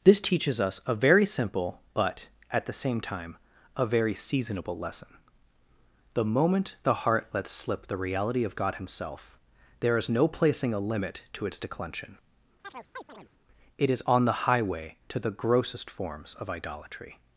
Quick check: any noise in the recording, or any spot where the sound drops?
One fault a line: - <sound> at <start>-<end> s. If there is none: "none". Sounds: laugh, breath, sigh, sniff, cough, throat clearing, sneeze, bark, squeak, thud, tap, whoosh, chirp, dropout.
- chirp at 12.6-13.3 s